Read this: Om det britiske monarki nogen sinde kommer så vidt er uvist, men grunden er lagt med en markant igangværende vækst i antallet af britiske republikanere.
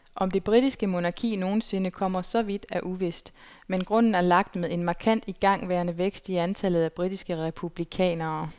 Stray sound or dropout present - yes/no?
no